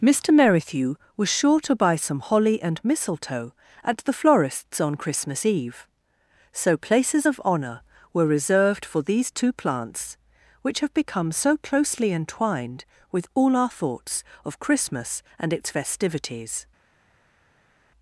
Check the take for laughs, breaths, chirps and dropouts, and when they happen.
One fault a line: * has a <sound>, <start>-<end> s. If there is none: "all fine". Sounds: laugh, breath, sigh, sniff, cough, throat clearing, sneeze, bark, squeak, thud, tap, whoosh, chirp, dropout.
all fine